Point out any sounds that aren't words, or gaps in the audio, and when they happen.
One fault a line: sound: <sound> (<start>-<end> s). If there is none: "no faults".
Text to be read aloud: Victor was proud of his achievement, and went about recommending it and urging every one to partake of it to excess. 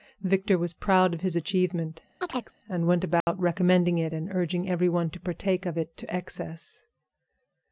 sound: chirp (2.2-2.5 s)
sound: dropout (3.2-3.3 s)